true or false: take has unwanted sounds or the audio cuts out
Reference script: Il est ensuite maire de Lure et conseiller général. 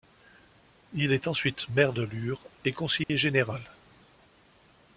true